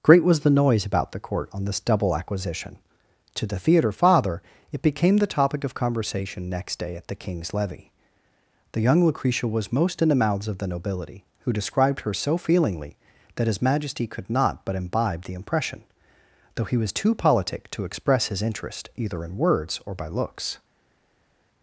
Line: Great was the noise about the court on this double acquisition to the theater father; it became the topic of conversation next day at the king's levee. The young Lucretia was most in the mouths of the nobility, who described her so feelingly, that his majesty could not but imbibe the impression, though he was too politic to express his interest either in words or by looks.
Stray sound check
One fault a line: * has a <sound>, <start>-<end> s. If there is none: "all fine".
all fine